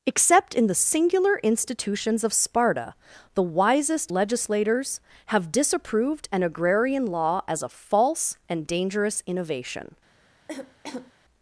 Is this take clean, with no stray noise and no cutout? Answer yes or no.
no